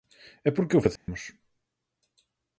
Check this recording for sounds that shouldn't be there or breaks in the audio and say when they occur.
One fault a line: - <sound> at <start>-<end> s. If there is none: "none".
- dropout at 1.0-1.1 s